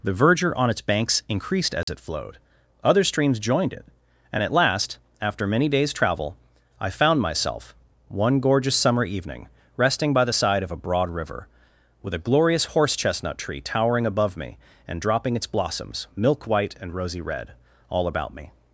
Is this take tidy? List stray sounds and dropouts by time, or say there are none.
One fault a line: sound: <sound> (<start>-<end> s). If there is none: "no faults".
sound: dropout (1.8-1.9 s)